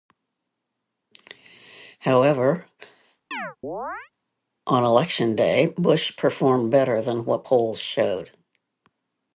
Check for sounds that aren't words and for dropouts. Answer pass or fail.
fail